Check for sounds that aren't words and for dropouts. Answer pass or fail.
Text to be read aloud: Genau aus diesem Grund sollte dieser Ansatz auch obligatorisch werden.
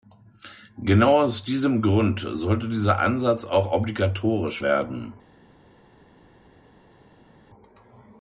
pass